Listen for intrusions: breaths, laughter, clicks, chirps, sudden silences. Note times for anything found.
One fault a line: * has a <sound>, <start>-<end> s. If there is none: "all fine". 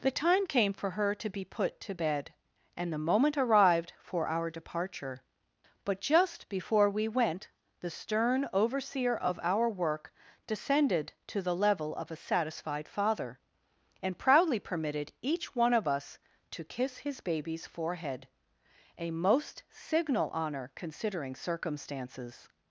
all fine